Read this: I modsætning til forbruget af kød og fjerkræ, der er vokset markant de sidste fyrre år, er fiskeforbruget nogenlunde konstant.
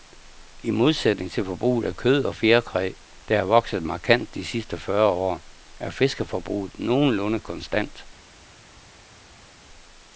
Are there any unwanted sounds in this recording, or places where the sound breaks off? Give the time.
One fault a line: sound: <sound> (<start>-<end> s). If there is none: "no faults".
no faults